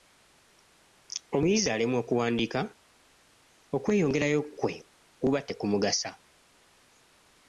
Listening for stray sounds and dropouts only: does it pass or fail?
pass